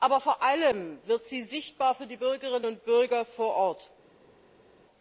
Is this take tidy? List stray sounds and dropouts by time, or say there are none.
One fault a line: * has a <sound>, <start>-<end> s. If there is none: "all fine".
all fine